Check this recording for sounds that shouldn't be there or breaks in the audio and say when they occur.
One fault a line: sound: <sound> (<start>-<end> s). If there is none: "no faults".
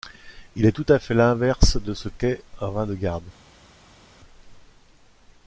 no faults